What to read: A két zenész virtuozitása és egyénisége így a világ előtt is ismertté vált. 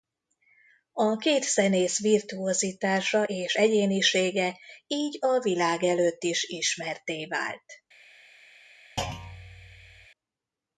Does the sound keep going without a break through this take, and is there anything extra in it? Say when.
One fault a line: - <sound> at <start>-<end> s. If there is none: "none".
- thud at 9.0-10.1 s